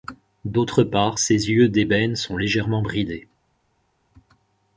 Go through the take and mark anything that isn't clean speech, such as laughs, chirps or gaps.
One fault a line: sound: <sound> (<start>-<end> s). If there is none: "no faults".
no faults